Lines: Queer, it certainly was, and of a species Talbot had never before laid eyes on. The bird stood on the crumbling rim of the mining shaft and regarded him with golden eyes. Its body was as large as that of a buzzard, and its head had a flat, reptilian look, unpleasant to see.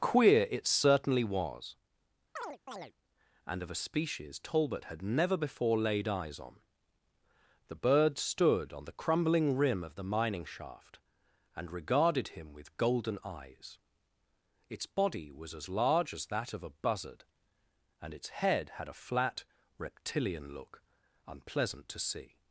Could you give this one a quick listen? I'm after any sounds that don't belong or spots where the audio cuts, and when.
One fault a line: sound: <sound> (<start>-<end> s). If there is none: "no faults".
sound: chirp (2.4-2.9 s)